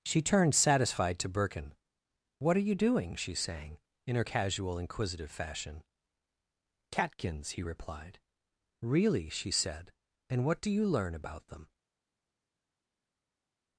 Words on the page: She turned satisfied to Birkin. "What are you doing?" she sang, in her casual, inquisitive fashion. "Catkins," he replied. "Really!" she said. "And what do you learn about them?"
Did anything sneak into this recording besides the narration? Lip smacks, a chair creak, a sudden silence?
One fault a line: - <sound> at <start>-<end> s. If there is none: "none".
none